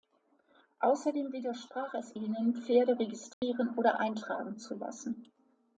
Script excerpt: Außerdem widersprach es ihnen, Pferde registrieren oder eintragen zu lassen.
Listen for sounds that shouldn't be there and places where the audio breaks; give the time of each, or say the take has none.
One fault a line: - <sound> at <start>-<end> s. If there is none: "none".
- dropout at 3.3-3.4 s